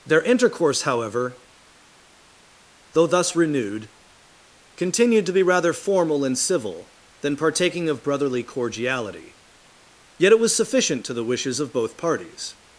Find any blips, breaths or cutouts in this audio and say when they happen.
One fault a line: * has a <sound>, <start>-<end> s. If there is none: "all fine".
all fine